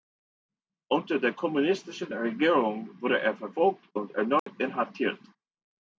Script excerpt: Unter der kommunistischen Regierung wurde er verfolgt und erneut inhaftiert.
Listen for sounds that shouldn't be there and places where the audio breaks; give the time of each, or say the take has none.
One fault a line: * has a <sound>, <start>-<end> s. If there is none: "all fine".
* has a dropout, 4.4-4.5 s